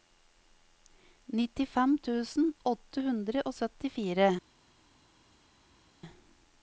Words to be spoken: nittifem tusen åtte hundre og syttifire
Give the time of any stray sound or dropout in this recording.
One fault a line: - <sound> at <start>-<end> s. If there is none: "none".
none